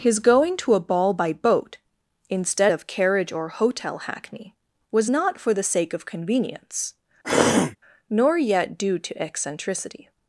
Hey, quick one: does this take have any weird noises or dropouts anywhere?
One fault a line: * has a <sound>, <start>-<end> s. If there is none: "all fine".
* has a throat clearing, 7.2-7.8 s